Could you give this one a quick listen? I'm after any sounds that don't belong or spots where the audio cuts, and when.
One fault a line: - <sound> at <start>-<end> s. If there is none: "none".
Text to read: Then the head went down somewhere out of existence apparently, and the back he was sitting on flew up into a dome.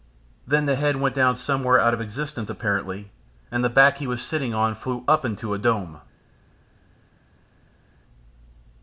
none